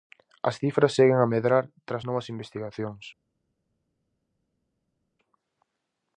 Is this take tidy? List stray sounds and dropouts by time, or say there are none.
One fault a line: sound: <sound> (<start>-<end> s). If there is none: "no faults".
no faults